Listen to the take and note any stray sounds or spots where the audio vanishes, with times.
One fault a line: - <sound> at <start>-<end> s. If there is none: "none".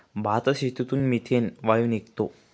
none